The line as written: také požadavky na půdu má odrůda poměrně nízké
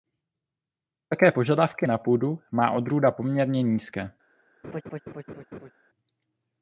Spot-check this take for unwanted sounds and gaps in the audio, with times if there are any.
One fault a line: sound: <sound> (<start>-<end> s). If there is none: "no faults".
sound: laugh (4.6-5.7 s)